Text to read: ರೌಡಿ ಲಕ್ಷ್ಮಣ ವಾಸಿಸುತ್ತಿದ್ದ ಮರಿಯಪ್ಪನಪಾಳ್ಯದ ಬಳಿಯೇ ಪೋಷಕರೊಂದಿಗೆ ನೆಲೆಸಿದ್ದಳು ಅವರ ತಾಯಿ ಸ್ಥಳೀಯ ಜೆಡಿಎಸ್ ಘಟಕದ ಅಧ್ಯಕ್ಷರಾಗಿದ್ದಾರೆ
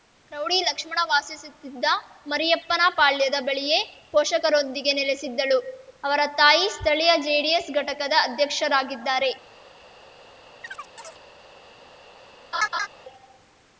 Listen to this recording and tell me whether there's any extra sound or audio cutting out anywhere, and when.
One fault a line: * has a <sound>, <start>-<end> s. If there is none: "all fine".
* has a chirp, 10.6-11.2 s
* has a laugh, 12.5-12.9 s